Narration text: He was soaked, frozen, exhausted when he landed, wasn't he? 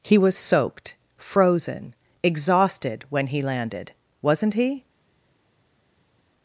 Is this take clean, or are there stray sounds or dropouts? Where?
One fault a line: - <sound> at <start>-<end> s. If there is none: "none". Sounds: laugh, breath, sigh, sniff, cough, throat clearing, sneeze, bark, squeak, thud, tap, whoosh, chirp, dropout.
none